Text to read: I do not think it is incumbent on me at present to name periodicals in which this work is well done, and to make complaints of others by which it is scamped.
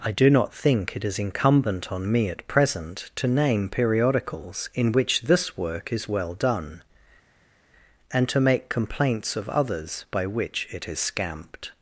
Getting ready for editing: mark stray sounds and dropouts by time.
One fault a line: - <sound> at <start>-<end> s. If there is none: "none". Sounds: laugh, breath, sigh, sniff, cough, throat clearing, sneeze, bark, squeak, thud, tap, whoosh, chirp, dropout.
none